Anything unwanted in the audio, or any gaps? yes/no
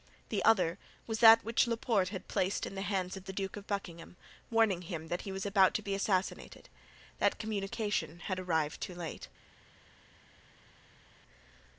no